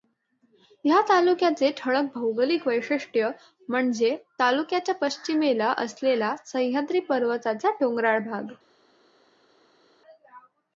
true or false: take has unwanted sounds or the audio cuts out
false